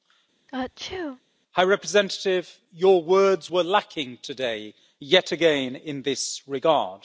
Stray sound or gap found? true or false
true